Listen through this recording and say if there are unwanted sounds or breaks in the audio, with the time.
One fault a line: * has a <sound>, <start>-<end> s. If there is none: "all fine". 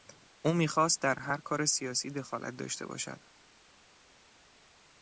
all fine